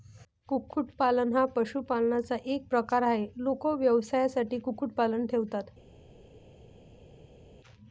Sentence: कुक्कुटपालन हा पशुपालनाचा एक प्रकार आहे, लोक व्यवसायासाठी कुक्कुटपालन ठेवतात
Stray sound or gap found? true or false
false